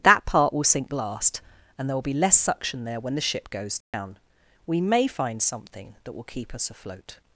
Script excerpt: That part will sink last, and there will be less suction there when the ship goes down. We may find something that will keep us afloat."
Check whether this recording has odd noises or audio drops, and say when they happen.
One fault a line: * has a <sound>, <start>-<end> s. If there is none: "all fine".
* has a dropout, 3.8-3.9 s